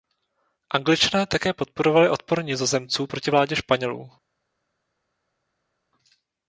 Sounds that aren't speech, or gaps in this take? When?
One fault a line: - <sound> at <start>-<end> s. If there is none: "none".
none